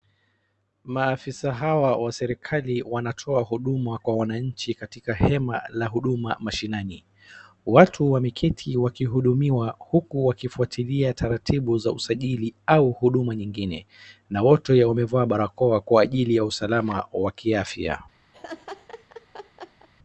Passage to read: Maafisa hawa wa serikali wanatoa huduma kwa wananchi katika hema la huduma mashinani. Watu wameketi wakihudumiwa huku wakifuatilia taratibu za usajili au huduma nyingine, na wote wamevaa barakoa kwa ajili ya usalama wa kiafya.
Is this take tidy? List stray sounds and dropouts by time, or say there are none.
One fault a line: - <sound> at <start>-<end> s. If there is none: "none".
- laugh at 18.3-19.9 s